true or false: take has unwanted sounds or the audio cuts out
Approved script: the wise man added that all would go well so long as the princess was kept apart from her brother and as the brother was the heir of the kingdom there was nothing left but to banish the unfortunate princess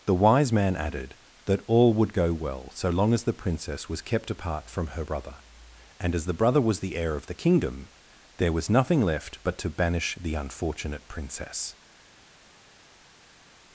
false